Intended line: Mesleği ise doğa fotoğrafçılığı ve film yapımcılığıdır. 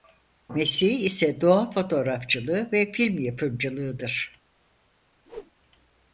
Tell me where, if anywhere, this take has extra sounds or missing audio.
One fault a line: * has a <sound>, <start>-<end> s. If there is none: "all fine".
* has a whoosh, 5.3-5.5 s